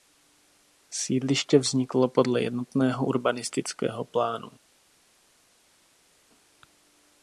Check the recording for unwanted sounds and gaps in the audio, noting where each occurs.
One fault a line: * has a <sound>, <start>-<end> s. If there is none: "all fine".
all fine